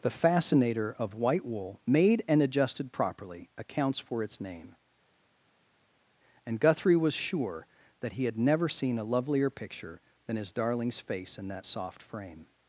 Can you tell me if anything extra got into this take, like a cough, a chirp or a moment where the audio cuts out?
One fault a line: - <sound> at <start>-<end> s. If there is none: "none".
none